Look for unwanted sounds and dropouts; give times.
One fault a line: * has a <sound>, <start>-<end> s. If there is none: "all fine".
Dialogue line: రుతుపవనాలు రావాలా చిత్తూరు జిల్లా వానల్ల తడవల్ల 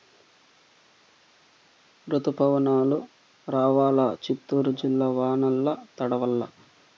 all fine